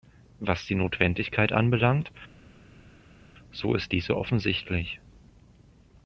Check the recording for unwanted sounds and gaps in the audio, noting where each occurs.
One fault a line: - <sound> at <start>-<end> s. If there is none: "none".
none